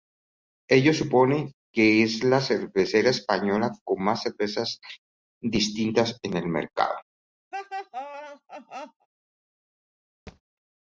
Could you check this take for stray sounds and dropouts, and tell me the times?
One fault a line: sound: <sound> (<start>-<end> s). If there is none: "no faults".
sound: laugh (7.5-9.1 s)
sound: thud (10.3-10.4 s)